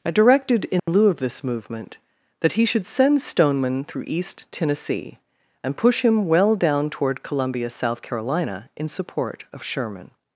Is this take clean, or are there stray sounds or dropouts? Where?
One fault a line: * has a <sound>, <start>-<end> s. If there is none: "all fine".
* has a dropout, 0.8-0.9 s